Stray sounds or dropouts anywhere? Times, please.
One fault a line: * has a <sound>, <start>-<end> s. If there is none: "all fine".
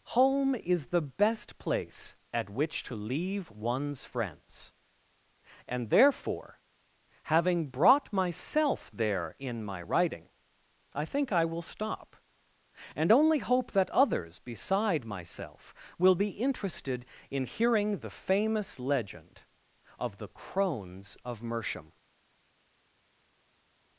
all fine